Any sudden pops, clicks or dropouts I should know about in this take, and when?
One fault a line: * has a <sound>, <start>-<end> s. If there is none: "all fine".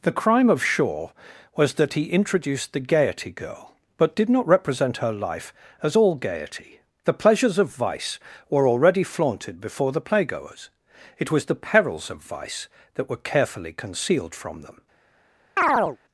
* has a chirp, 15.6-16.0 s